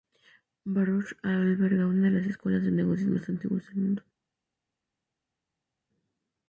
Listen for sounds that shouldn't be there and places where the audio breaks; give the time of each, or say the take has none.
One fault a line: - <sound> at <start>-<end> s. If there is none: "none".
none